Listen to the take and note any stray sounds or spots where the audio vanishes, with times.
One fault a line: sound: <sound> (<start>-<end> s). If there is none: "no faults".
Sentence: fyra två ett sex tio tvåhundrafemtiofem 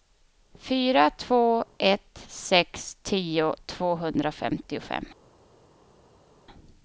no faults